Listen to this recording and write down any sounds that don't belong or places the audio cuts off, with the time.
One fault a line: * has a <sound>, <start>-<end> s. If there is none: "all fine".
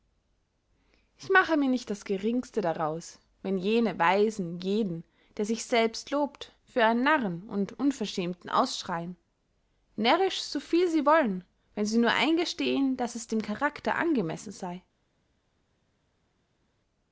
all fine